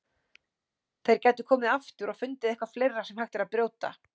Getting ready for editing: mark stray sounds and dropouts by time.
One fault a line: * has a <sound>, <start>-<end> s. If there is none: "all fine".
all fine